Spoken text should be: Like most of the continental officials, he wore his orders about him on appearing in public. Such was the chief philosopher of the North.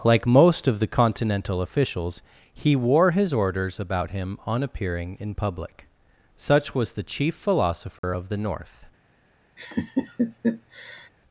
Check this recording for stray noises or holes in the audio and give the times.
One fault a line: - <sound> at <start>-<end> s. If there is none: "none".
- dropout at 8.0-8.0 s
- laugh at 9.6-11.1 s